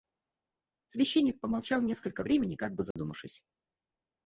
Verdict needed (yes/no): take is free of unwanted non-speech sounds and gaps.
no